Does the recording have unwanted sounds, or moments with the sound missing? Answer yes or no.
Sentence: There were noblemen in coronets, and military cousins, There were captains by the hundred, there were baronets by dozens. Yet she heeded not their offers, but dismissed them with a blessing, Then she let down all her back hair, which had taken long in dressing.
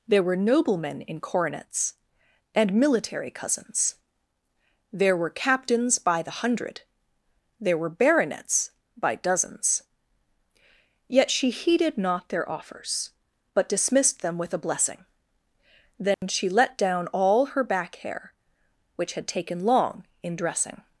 yes